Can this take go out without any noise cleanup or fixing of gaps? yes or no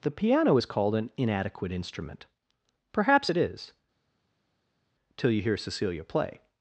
yes